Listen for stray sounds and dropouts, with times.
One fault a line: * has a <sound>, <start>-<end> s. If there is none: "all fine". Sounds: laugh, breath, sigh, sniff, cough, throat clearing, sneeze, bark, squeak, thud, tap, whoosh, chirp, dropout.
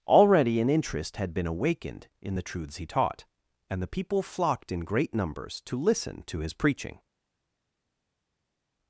all fine